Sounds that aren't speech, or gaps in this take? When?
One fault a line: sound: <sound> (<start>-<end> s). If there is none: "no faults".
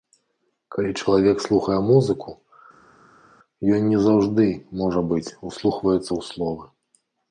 no faults